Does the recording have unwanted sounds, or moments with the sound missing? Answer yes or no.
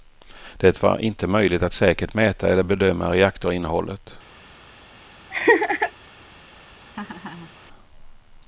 yes